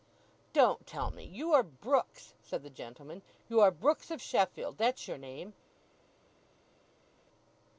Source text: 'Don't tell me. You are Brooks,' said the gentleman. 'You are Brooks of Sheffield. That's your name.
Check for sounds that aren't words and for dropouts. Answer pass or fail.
pass